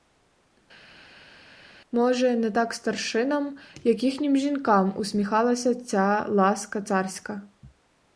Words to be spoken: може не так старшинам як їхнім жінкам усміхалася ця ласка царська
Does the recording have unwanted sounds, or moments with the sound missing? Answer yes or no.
no